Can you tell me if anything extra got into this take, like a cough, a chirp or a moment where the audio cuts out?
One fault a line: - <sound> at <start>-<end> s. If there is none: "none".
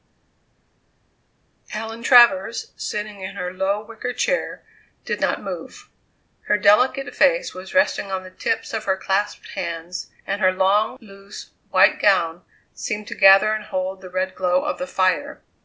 none